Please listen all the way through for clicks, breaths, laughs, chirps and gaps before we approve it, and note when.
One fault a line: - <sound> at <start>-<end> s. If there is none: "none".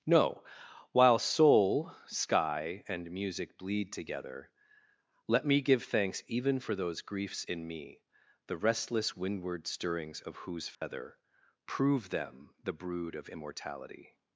- dropout at 10.7-10.8 s